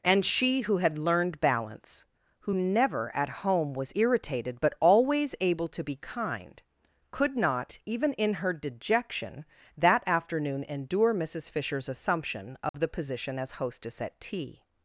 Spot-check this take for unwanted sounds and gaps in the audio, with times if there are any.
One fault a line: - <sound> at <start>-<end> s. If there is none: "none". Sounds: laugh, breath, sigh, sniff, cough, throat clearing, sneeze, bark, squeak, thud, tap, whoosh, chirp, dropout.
- dropout at 12.7-12.7 s